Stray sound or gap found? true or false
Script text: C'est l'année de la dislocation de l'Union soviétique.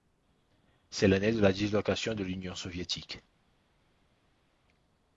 false